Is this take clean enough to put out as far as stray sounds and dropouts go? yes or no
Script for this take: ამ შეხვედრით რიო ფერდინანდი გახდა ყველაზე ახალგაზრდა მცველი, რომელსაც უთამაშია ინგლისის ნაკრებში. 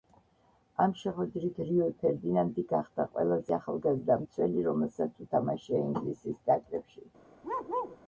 no